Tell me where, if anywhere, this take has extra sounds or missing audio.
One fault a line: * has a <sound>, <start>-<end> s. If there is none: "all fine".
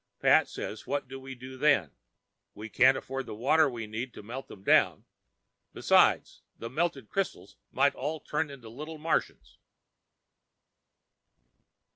all fine